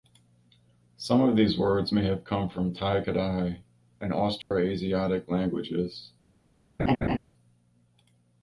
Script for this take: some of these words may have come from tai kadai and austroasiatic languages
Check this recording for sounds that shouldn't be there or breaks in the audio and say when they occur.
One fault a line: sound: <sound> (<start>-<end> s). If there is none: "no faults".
sound: dropout (4.4-4.5 s)
sound: laugh (6.8-7.2 s)